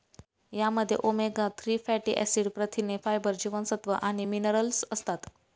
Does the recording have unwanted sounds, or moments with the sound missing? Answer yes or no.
no